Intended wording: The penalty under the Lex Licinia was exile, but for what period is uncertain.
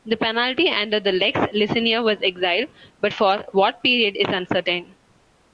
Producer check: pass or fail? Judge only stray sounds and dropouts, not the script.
pass